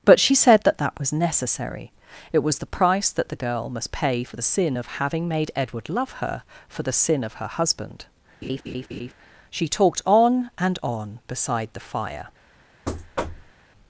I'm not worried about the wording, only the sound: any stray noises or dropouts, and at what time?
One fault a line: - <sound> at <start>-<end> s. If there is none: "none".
- laugh at 8.4-9.1 s
- thud at 12.9-13.5 s